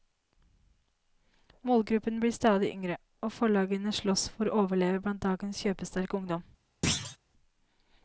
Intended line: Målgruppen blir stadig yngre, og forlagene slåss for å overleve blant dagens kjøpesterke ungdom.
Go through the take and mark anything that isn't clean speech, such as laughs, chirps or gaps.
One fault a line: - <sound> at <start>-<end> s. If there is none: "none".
- thud at 6.8-7.2 s